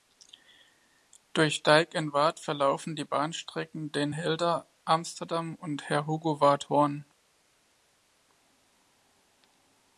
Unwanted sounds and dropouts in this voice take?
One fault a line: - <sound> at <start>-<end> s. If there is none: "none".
none